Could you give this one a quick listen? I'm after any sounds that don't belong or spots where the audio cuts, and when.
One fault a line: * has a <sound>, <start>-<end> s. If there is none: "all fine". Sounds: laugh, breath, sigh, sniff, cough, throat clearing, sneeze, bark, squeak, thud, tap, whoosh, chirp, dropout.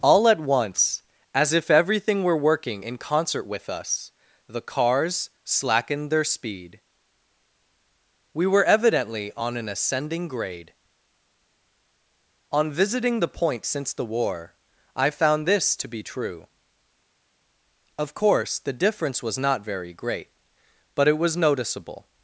all fine